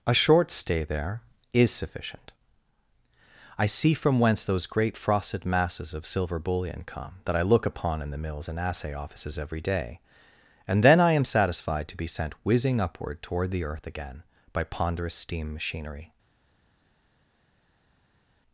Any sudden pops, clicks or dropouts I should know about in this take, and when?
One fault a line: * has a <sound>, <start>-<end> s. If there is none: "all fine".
all fine